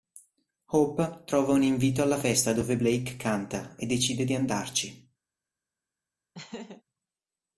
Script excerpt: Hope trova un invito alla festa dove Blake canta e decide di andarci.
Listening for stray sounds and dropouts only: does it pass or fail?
fail